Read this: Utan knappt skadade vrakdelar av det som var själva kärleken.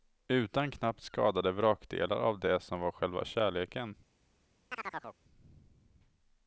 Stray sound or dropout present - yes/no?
yes